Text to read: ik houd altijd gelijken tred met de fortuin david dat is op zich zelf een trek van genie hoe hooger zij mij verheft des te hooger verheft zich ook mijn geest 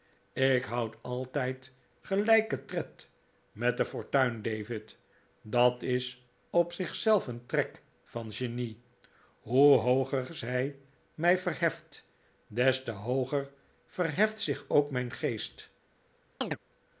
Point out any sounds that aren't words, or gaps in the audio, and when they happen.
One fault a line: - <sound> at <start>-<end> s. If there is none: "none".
- chirp at 16.4-16.6 s